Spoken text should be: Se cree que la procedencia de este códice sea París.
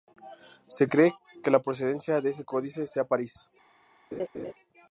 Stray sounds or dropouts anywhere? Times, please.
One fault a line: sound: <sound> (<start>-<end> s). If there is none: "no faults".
sound: laugh (4.1-4.5 s)